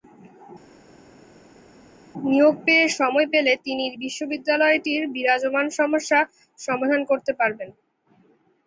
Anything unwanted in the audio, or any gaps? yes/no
no